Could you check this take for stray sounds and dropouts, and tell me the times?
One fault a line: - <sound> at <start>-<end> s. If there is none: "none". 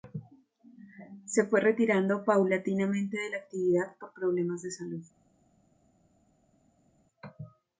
none